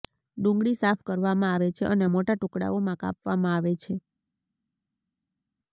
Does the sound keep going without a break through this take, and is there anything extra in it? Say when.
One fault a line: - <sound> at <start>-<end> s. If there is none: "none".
none